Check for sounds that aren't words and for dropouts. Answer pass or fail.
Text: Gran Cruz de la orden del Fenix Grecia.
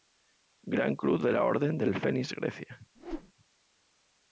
fail